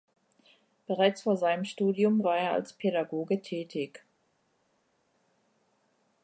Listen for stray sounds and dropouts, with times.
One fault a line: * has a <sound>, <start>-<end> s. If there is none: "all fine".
all fine